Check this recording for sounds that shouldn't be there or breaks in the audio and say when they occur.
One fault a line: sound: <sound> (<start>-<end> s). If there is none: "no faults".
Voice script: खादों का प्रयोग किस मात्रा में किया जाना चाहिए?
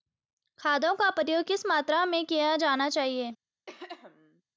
sound: throat clearing (3.7-4.4 s)